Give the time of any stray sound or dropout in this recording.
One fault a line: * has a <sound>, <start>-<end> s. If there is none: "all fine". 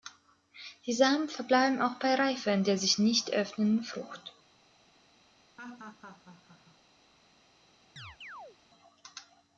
* has a laugh, 5.6-6.8 s
* has a chirp, 8.0-8.6 s